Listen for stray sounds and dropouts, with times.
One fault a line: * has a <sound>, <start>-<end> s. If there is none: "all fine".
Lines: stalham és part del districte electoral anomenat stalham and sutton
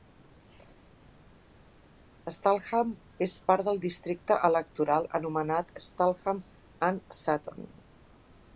all fine